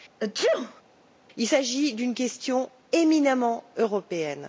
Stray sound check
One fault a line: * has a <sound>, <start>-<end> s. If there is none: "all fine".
* has a sneeze, 0.2-0.8 s